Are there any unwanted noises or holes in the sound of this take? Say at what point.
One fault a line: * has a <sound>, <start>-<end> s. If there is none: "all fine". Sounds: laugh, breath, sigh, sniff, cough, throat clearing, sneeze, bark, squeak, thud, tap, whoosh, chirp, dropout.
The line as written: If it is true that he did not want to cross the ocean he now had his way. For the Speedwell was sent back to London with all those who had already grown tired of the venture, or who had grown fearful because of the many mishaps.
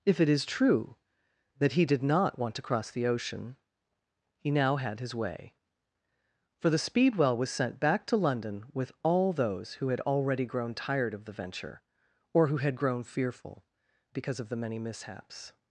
all fine